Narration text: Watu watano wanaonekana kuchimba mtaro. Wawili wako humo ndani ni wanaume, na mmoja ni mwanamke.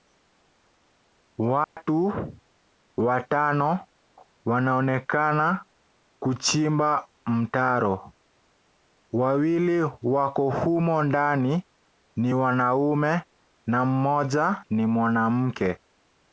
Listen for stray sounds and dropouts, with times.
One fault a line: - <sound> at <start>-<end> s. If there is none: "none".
- dropout at 1.6-1.8 s